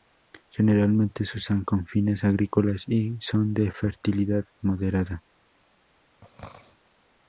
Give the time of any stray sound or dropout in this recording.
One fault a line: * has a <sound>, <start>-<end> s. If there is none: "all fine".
* has a throat clearing, 6.2-6.8 s